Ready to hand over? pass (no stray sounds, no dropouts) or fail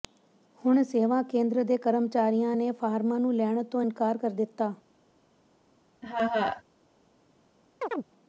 fail